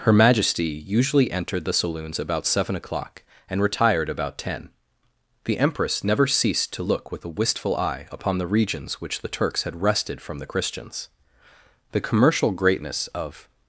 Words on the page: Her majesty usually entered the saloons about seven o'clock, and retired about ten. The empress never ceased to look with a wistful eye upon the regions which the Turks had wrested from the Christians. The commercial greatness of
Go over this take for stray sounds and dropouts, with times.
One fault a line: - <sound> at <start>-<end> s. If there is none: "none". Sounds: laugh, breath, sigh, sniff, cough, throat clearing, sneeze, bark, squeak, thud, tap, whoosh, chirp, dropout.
none